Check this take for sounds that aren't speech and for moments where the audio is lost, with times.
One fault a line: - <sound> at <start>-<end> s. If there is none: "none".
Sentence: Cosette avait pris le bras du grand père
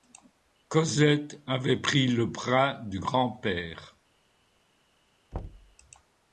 - thud at 5.3-5.8 s